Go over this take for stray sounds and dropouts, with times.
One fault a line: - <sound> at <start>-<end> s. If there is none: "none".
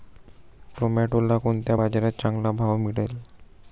none